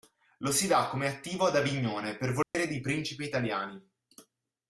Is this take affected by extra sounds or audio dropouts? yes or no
yes